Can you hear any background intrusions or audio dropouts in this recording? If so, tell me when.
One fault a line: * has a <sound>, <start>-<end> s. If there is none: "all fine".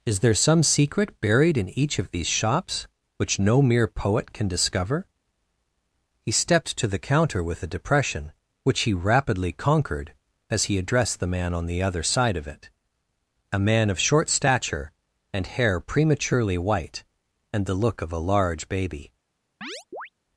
* has a chirp, 19.6-20.1 s